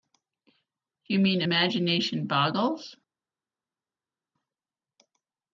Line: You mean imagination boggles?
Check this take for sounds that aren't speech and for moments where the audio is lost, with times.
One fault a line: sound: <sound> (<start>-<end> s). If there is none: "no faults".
no faults